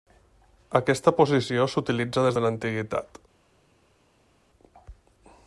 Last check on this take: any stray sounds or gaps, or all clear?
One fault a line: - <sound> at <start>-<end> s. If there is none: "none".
none